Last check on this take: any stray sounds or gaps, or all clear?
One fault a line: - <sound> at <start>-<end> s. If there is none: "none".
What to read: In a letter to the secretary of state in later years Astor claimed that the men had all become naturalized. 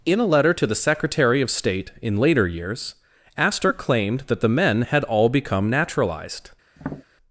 - tap at 6.8-7.0 s